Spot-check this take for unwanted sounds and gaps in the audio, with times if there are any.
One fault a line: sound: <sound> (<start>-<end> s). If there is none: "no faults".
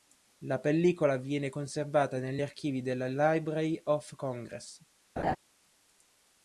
sound: laugh (5.2-5.4 s)